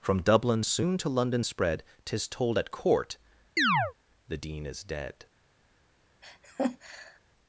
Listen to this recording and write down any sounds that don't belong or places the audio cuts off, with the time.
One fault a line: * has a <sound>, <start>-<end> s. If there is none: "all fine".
* has a chirp, 3.6-3.9 s
* has a laugh, 6.2-7.2 s